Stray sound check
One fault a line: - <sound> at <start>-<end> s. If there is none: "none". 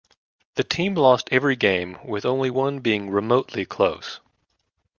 none